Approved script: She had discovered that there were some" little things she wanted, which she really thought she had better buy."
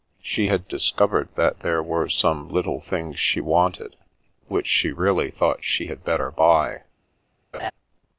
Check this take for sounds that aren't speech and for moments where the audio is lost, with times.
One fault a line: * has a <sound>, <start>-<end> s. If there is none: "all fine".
* has a laugh, 7.5-7.7 s